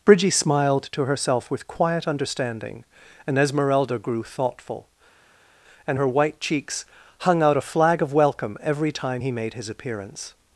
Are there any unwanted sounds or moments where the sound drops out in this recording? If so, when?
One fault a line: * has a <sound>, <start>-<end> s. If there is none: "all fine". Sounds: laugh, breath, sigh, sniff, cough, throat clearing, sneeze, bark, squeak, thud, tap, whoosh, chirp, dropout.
all fine